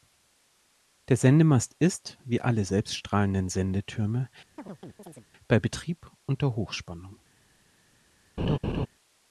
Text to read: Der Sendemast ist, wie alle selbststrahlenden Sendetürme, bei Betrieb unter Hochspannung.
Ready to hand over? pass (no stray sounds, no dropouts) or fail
fail